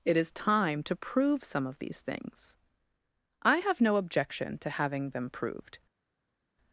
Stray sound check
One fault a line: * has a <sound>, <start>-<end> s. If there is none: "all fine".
all fine